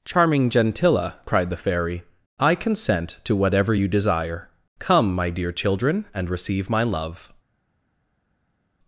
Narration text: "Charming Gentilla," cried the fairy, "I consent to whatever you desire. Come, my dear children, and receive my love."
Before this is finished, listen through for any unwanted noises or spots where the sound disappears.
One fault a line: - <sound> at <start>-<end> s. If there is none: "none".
none